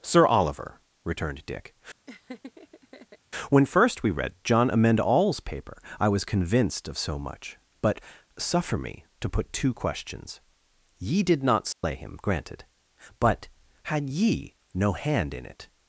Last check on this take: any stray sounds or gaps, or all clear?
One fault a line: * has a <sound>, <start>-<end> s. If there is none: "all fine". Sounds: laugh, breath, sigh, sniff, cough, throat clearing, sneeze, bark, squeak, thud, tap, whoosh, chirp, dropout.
* has a laugh, 2.1-3.2 s
* has a dropout, 11.7-11.8 s